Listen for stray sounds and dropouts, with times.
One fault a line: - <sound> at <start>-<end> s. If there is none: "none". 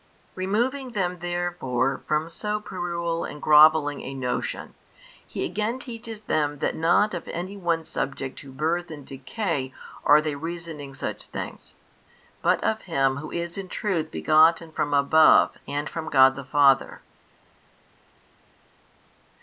none